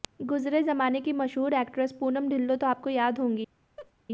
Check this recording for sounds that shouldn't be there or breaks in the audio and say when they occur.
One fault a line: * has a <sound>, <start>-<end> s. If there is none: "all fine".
* has a laugh, 3.8-3.9 s